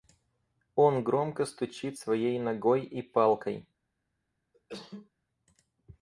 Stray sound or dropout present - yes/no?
yes